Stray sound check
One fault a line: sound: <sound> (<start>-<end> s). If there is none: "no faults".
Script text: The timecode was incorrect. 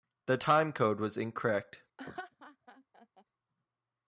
sound: laugh (2.0-3.2 s)